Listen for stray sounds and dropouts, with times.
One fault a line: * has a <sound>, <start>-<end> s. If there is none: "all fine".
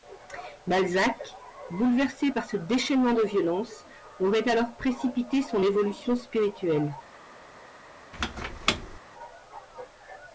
* has a squeak, 8.1-9.0 s